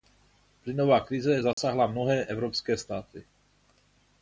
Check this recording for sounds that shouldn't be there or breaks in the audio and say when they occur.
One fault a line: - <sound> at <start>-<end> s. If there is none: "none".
- dropout at 1.5-1.6 s